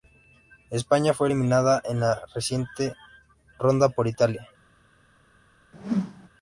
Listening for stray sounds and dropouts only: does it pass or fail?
fail